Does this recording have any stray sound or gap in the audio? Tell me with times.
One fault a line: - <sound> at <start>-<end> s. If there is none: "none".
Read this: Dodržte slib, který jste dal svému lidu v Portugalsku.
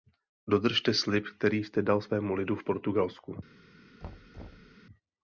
- thud at 4.0-4.8 s